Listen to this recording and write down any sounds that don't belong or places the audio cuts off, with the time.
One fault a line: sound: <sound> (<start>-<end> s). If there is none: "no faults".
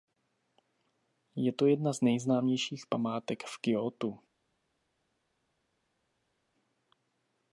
no faults